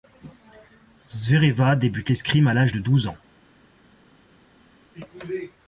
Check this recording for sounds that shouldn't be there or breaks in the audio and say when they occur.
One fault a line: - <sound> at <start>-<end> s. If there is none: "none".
none